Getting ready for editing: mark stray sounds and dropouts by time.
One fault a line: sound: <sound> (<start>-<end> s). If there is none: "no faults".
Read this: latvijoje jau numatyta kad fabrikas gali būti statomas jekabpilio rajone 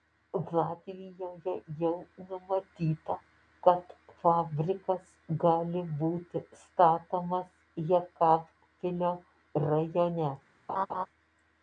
sound: laugh (10.7-11.1 s)